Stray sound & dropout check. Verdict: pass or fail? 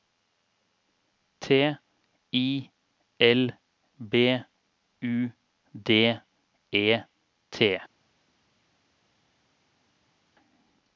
pass